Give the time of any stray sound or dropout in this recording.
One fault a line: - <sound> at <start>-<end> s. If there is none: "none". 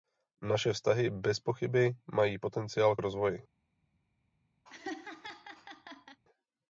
- laugh at 4.6-6.2 s